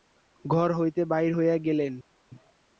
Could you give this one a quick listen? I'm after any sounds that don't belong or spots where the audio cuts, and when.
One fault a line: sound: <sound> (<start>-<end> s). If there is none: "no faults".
no faults